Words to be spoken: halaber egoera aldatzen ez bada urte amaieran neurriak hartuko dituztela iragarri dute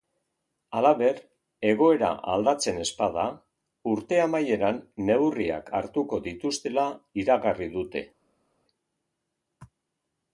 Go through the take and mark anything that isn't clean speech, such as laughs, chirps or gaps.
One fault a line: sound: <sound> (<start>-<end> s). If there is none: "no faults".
no faults